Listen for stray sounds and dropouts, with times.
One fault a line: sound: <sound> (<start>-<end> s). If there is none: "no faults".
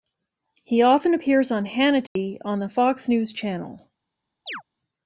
sound: dropout (2.1-2.2 s)
sound: chirp (4.5-4.6 s)